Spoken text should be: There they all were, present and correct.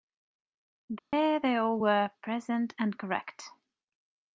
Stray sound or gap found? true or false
true